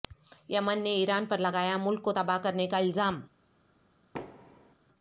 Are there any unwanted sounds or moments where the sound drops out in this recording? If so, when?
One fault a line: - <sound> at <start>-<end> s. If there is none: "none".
- thud at 4.1-4.8 s